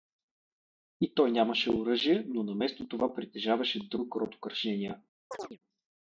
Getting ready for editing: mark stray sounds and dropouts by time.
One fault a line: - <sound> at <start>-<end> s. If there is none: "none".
- chirp at 5.3-5.6 s